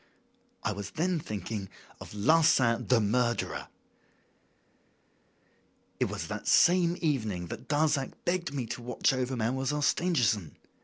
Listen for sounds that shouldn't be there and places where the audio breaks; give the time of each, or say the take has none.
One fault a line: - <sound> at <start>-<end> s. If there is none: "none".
none